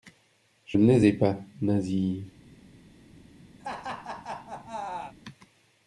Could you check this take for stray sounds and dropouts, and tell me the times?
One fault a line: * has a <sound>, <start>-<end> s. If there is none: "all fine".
* has a laugh, 3.6-5.1 s